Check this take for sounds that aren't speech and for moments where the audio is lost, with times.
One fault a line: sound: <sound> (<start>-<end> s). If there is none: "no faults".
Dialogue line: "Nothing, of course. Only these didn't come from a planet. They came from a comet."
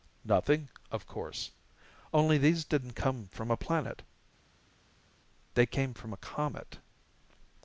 no faults